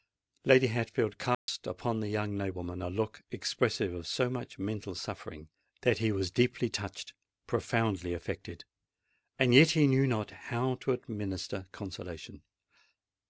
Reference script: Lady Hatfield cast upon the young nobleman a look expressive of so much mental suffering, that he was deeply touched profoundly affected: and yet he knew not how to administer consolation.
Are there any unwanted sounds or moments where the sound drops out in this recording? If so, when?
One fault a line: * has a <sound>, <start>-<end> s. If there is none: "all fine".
* has a dropout, 1.3-1.5 s